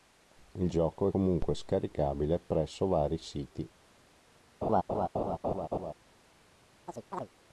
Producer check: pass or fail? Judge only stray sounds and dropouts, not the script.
fail